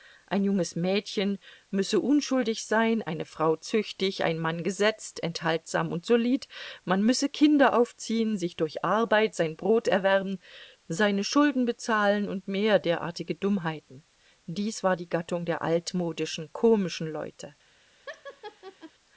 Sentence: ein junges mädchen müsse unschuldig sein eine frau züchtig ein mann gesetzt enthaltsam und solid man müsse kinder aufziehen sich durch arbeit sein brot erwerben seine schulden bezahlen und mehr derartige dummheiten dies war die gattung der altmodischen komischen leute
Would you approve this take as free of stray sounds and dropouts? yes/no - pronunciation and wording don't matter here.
no